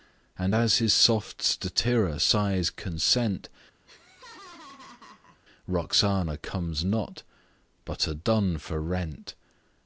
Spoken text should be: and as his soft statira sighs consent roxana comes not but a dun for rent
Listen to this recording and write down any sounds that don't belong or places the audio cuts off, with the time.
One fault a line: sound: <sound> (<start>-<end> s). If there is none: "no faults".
sound: laugh (3.9-5.4 s)